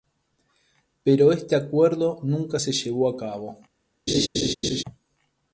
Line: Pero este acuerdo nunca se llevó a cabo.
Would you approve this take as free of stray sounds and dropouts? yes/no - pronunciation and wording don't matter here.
no